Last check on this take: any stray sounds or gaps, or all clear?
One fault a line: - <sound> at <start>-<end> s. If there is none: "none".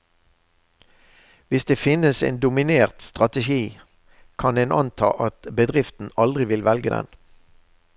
none